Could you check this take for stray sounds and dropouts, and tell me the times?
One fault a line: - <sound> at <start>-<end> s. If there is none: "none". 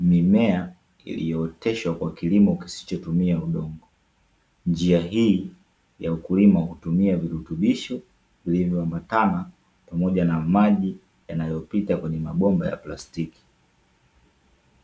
none